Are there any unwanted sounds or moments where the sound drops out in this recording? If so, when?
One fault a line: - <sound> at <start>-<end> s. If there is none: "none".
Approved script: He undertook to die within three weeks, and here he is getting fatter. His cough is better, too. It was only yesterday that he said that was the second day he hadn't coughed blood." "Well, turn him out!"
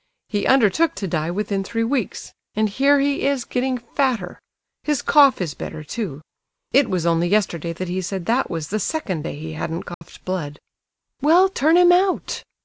- dropout at 9.9-10.0 s